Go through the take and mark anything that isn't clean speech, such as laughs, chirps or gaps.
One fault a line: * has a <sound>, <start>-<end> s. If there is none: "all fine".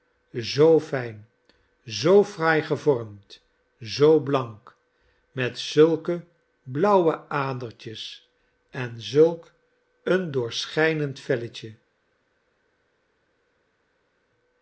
all fine